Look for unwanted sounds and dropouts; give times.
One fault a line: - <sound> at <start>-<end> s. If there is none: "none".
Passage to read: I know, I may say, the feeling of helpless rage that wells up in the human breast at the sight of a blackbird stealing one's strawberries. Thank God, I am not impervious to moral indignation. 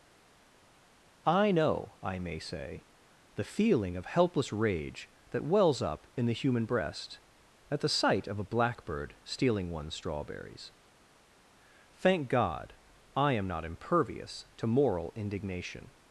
none